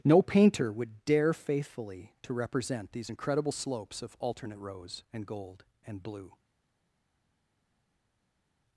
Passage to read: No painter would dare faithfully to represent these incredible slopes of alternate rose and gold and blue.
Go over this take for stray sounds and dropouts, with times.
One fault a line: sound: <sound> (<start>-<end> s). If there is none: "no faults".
no faults